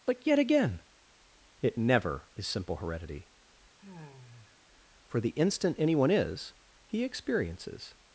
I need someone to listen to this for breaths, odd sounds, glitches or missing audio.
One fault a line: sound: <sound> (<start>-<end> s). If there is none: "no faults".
sound: sigh (3.8-4.6 s)